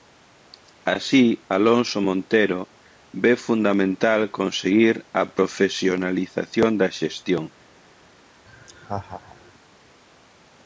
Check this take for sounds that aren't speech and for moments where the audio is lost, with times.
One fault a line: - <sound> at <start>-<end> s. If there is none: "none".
- laugh at 8.5-9.5 s